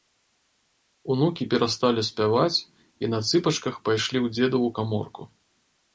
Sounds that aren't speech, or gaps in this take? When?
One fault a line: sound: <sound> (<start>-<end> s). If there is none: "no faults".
no faults